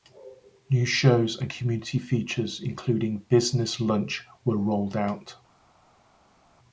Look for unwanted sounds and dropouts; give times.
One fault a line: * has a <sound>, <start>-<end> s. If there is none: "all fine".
all fine